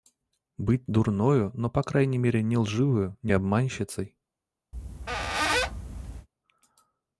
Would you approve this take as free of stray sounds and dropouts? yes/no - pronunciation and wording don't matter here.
no